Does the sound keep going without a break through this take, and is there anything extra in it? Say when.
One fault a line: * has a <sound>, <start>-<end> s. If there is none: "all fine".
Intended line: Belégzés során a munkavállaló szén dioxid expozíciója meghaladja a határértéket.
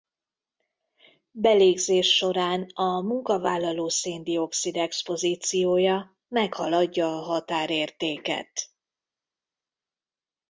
all fine